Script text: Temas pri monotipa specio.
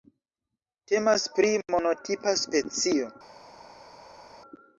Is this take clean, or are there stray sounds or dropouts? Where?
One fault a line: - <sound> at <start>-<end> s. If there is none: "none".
none